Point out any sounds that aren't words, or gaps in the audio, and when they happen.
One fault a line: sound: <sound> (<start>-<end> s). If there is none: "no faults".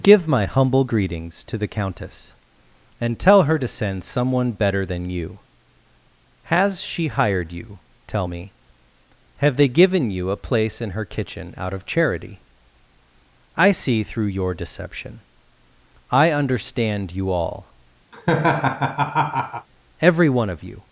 sound: laugh (18.1-19.7 s)